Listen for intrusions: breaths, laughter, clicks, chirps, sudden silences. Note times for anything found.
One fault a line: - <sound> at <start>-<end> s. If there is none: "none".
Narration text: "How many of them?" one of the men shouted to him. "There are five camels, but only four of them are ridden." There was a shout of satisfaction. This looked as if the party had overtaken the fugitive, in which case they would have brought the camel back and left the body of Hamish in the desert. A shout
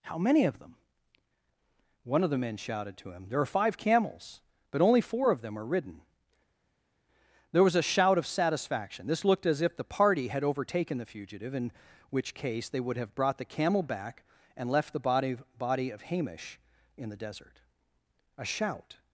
none